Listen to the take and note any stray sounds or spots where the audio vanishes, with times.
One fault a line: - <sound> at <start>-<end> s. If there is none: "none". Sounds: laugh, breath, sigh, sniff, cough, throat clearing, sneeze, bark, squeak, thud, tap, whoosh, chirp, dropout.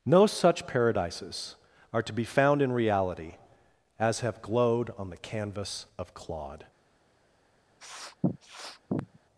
- sniff at 7.8-9.2 s